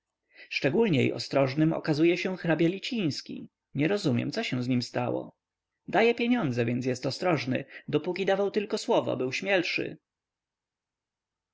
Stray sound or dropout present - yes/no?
no